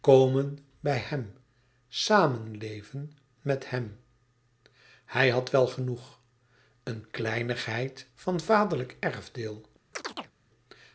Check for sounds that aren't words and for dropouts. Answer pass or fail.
fail